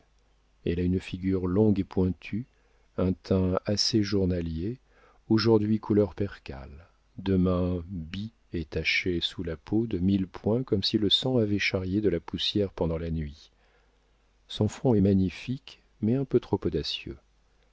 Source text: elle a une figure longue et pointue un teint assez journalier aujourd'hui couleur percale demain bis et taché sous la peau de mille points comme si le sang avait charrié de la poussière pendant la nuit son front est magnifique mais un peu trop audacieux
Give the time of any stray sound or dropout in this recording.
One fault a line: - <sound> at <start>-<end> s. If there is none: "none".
none